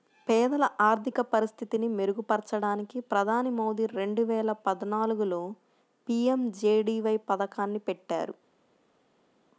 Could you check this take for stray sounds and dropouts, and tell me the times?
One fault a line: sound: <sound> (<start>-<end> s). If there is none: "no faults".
no faults